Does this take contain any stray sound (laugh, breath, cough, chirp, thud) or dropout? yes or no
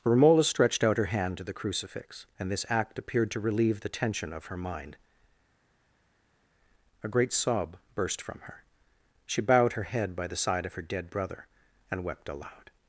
no